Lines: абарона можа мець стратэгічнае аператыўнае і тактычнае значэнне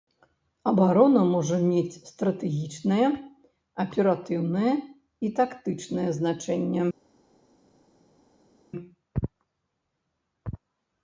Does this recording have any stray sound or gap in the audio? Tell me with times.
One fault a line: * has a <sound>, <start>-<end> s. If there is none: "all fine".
all fine